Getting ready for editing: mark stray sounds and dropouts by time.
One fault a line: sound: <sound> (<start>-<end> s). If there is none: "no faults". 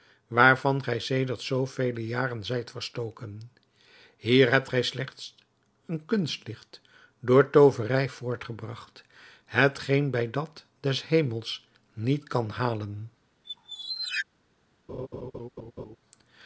sound: squeak (13.4-14.3 s)
sound: laugh (14.9-16.0 s)